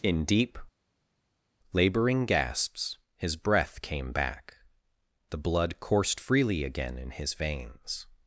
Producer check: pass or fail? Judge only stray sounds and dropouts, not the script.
pass